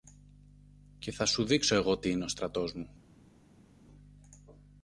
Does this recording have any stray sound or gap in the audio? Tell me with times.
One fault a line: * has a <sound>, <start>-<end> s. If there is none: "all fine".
all fine